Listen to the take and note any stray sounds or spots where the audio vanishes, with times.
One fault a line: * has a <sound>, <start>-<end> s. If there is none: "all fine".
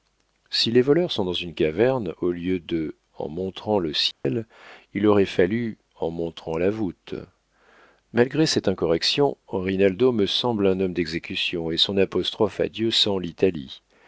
* has a dropout, 4.1-4.2 s